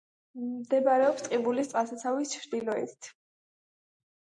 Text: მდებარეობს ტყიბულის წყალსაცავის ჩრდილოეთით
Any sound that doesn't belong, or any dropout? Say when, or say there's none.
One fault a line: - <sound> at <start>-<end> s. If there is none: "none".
none